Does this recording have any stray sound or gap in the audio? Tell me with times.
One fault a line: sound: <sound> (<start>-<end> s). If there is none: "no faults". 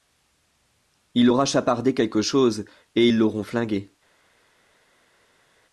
no faults